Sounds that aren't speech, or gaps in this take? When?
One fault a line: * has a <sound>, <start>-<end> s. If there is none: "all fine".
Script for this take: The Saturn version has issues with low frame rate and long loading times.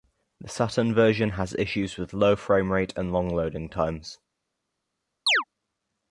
* has a chirp, 5.3-5.4 s